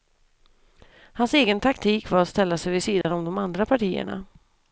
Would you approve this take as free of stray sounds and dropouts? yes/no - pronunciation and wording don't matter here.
no